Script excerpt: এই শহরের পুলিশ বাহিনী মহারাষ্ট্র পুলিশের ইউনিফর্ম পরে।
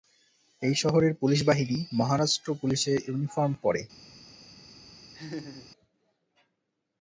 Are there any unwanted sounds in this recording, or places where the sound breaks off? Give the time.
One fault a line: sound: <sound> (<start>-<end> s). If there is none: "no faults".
sound: laugh (5.1-5.7 s)